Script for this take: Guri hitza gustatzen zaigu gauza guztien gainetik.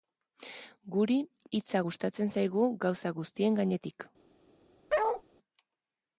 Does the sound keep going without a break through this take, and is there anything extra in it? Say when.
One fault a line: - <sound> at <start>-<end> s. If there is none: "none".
- bark at 4.9-5.2 s